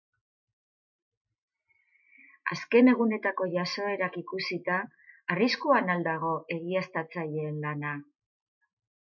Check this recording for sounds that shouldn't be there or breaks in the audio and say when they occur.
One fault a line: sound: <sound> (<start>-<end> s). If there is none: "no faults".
no faults